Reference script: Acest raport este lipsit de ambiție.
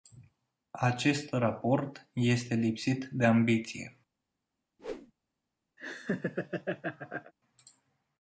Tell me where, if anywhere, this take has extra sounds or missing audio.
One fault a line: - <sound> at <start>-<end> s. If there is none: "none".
- whoosh at 4.8-5.1 s
- laugh at 5.8-7.3 s